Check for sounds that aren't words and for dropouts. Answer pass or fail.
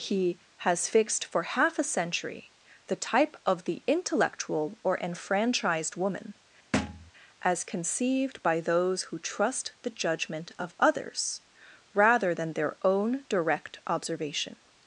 fail